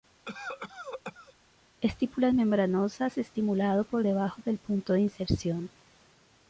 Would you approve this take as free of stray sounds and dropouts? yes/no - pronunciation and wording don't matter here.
no